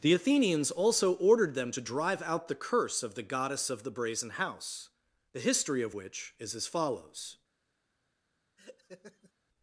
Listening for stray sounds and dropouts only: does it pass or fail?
fail